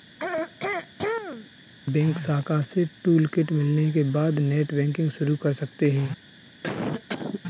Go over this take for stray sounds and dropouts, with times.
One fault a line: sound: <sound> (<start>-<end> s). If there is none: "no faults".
sound: throat clearing (0.2-1.5 s)
sound: cough (6.6-7.4 s)